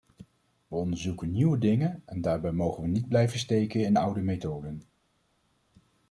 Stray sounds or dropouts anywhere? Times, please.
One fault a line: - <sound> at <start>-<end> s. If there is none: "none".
none